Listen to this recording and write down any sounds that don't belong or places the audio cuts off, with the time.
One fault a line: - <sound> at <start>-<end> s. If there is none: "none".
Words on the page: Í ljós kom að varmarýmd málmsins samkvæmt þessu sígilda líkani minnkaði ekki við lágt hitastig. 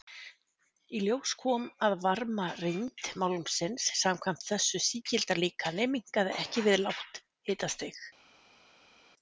none